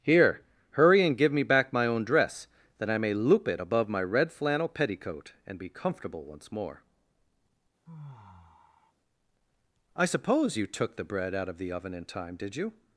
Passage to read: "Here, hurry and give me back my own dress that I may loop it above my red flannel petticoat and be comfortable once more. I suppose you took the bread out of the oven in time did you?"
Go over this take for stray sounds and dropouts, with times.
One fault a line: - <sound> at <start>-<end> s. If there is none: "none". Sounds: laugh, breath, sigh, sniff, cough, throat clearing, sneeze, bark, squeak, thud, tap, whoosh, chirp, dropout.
- sigh at 7.9-8.9 s